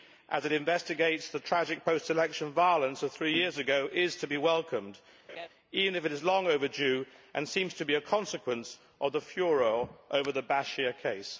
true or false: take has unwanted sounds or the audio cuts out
true